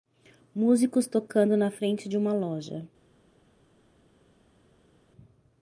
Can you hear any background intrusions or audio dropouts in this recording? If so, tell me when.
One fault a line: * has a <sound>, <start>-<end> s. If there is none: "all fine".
all fine